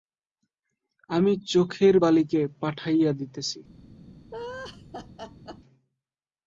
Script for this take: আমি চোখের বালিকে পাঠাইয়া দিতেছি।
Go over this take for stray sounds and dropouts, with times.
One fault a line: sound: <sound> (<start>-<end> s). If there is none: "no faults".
sound: laugh (4.3-5.6 s)